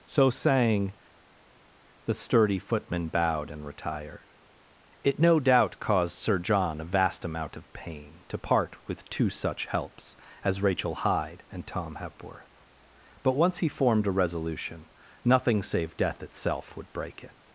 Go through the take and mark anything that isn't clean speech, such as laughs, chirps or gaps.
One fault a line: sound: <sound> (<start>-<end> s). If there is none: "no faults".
no faults